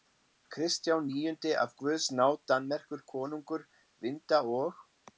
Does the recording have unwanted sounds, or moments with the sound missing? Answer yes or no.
no